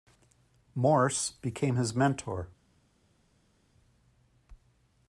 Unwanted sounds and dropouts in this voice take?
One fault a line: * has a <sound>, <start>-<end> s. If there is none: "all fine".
all fine